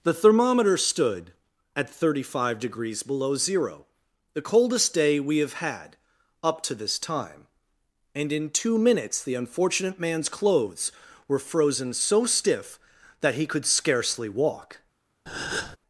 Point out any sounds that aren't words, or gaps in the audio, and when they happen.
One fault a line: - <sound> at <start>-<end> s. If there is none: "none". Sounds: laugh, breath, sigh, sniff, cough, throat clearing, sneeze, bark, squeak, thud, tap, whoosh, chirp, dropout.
- breath at 15.3-15.8 s